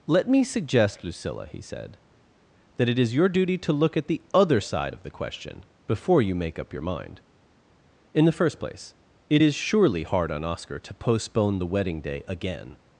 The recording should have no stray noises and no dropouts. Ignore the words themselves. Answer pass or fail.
pass